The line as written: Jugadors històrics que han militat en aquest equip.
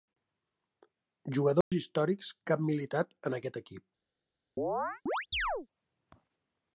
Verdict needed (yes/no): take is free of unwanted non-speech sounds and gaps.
no